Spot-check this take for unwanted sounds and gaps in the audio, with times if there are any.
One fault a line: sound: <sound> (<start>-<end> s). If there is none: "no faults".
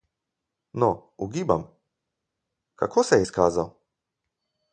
no faults